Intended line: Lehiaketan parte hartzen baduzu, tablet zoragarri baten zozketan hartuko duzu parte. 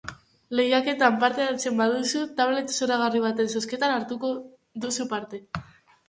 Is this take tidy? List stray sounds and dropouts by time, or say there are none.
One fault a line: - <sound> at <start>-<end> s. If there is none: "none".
none